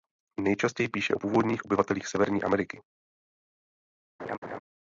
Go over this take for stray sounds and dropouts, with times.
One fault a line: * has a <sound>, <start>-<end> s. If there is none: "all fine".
* has a laugh, 4.2-4.6 s